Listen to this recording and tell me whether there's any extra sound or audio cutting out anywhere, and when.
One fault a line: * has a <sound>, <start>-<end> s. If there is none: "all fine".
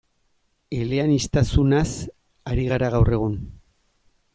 all fine